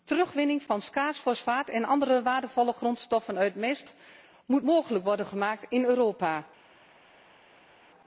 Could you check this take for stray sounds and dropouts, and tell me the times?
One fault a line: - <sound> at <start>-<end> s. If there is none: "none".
none